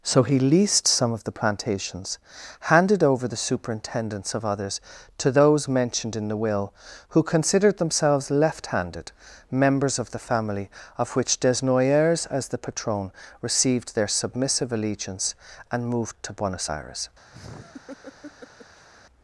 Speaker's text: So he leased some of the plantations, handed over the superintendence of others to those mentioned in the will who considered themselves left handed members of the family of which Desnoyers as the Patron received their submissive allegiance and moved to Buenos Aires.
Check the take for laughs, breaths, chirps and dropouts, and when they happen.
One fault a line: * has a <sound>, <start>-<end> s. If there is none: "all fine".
* has a laugh, 17.3-18.9 s